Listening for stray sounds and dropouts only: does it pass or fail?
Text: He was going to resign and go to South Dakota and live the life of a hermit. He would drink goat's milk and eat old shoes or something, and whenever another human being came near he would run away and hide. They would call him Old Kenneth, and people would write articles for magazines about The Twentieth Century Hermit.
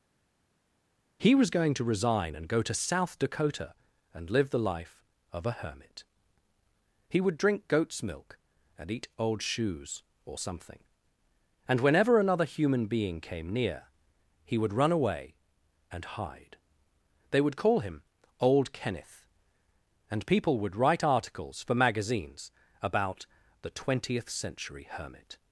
pass